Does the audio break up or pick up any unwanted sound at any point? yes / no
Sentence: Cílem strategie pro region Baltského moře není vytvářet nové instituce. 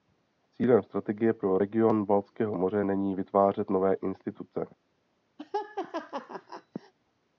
yes